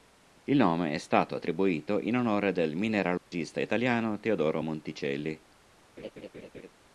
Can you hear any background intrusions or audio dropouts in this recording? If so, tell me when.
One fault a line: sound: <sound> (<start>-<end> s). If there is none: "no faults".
sound: dropout (3.2-3.3 s)
sound: laugh (6.0-6.7 s)